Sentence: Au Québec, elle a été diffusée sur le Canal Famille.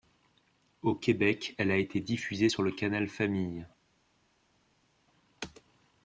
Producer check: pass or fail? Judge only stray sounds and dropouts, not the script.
pass